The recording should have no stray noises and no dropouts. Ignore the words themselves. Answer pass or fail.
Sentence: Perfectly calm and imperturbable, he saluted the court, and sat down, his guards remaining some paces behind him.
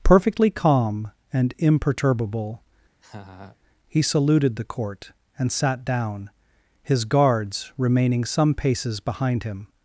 fail